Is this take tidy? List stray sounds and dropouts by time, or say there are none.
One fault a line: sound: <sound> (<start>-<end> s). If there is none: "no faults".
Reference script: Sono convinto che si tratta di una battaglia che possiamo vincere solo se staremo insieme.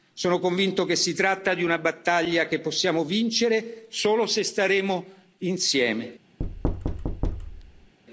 sound: thud (6.4-7.9 s)